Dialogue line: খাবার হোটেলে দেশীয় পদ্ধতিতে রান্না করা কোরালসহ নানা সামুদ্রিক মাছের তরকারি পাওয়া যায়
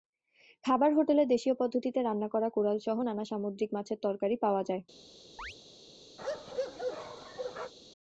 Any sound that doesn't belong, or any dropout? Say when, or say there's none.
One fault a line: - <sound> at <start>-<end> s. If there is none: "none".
- chirp at 5.4-5.6 s
- bark at 6.2-7.7 s